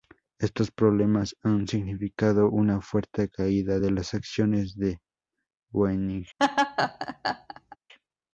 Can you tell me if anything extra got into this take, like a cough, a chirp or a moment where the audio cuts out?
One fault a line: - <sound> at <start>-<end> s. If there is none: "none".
- laugh at 6.4-7.8 s